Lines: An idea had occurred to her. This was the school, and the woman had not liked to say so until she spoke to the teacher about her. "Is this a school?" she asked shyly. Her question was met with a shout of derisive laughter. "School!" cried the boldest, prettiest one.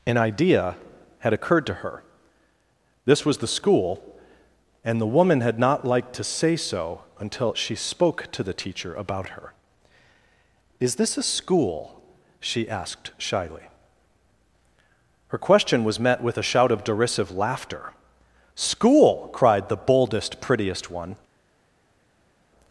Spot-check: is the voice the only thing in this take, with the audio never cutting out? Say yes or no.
yes